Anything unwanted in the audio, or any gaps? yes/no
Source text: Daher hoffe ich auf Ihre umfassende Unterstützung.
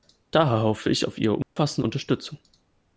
yes